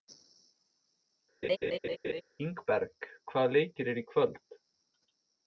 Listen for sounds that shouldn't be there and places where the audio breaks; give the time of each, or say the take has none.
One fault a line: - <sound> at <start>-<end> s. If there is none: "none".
- laugh at 1.4-2.2 s